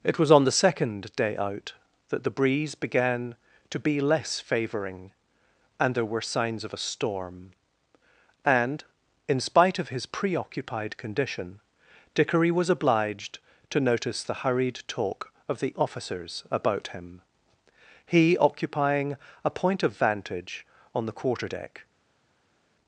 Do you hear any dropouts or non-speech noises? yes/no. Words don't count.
no